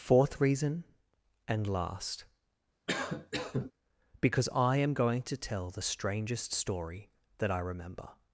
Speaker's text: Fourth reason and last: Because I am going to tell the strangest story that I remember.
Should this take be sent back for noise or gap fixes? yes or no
yes